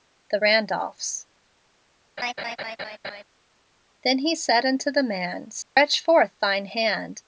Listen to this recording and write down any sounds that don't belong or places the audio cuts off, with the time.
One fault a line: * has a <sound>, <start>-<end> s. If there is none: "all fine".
* has a laugh, 2.2-3.2 s
* has a dropout, 5.6-5.8 s